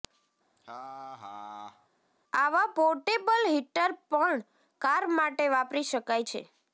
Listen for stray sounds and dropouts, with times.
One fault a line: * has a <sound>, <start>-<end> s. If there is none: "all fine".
* has a laugh, 0.6-1.9 s